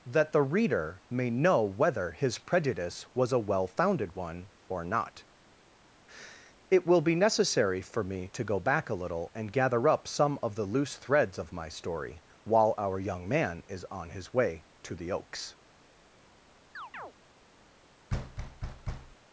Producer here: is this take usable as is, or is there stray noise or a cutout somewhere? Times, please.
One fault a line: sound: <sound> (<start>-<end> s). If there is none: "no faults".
sound: chirp (16.7-17.1 s)
sound: thud (18.1-19.2 s)